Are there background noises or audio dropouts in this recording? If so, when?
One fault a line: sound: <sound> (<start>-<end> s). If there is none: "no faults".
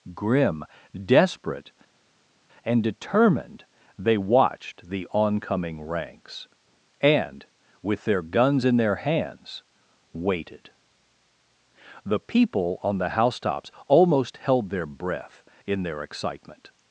no faults